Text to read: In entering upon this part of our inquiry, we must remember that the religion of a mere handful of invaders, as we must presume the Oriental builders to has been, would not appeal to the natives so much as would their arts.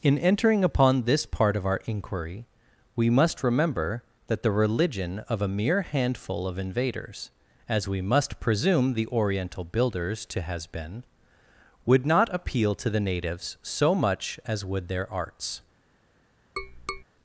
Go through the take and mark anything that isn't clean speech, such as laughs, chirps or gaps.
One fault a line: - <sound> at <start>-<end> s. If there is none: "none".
- tap at 16.6-17.0 s